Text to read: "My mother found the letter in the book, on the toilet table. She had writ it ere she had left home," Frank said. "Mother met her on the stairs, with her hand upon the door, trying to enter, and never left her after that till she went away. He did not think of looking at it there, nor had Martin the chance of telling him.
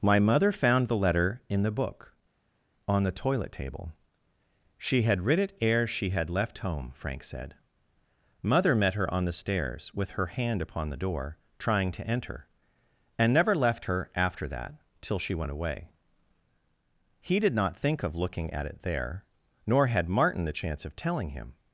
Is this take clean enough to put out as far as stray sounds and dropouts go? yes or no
yes